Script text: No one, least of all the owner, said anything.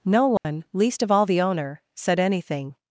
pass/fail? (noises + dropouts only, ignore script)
fail